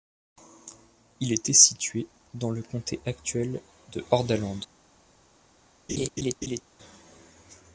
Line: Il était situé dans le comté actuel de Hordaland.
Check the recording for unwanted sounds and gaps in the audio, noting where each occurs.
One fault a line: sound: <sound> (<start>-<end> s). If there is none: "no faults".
sound: laugh (5.9-6.6 s)